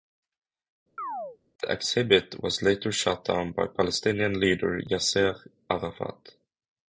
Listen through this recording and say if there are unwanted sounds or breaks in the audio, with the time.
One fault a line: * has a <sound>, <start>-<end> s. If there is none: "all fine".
* has a chirp, 1.0-1.4 s